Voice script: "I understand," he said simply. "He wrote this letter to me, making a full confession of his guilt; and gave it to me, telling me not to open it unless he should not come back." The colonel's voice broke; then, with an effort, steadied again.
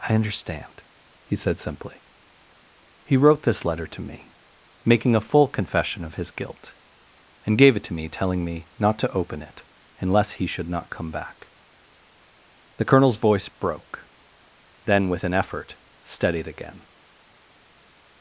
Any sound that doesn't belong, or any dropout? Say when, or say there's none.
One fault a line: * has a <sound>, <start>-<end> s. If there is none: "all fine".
all fine